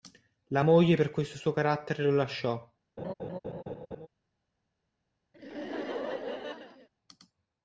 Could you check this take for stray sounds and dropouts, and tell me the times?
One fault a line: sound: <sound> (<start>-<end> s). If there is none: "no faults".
sound: laugh (3.0-4.1 s)
sound: laugh (5.3-6.9 s)